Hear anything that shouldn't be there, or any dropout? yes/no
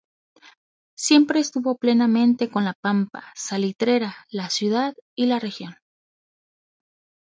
no